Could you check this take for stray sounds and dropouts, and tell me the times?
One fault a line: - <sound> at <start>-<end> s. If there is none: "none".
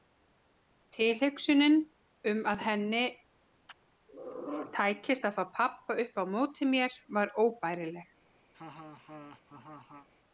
- laugh at 8.5-10.1 s